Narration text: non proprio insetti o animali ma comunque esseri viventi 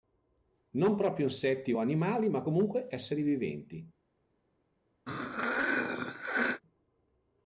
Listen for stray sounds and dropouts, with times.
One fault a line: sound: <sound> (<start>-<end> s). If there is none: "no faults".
sound: throat clearing (5.1-6.6 s)